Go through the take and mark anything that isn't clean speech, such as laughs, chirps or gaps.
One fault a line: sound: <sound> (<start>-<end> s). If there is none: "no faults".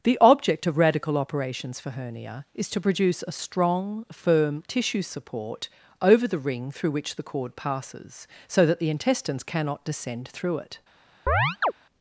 sound: chirp (11.3-11.7 s)